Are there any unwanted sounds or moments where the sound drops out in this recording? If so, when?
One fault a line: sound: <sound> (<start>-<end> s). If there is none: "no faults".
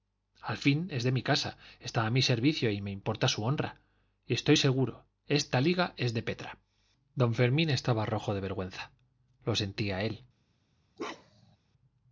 sound: bark (11.0-11.6 s)